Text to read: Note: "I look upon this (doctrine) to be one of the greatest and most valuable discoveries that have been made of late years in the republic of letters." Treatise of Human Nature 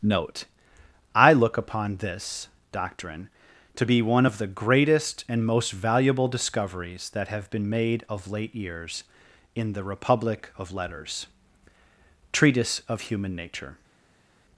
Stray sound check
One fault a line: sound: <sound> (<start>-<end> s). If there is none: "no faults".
no faults